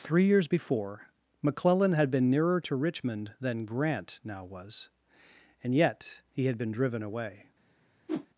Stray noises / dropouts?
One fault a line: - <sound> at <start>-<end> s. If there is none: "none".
- whoosh at 8.1-8.3 s